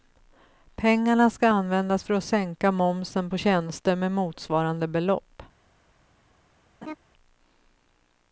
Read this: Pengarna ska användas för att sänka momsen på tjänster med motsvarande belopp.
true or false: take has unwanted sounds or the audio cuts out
true